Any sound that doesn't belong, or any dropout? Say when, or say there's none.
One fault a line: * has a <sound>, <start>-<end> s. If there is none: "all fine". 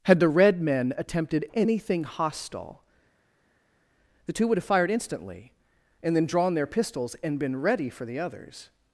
all fine